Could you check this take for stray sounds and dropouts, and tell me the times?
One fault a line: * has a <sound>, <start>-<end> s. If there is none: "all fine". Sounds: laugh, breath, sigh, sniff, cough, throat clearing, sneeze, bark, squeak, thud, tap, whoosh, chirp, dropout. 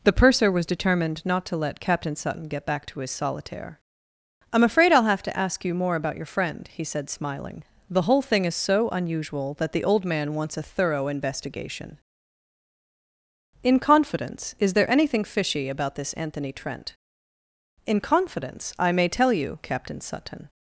all fine